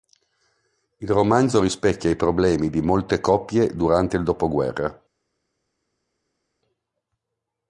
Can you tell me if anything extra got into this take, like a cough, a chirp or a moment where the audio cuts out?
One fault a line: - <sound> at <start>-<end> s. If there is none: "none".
none